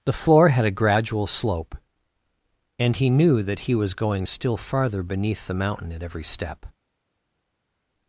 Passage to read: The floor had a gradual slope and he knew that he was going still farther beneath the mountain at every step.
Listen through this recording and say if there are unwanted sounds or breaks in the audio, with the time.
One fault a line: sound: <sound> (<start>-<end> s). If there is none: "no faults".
no faults